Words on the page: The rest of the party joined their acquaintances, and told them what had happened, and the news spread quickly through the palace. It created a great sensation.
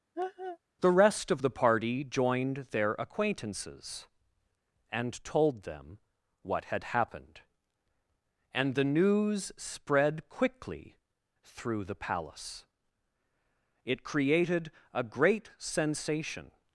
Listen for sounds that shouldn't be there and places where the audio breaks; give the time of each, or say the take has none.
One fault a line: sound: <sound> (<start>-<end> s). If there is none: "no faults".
sound: laugh (0.1-0.6 s)